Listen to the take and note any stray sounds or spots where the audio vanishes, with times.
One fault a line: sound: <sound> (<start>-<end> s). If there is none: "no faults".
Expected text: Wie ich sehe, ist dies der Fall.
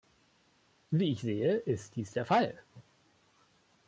no faults